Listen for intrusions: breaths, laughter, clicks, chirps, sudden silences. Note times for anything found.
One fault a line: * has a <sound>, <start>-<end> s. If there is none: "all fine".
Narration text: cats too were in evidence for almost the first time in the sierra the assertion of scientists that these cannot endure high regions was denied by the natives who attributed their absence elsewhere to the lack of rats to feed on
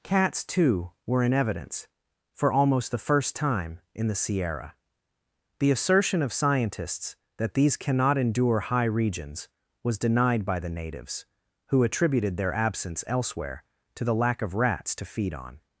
all fine